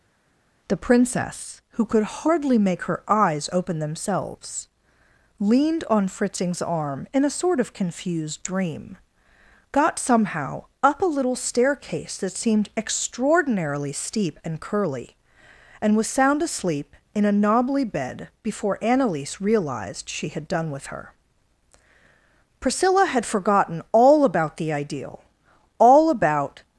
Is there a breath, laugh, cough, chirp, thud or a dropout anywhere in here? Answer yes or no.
no